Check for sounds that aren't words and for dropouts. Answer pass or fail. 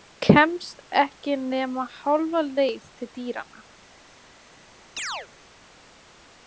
fail